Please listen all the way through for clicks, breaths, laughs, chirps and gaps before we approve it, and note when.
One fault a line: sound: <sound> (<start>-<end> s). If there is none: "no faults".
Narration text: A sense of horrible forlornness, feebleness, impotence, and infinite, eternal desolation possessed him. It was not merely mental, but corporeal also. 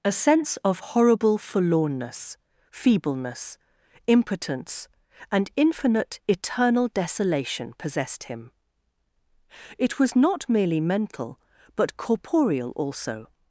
no faults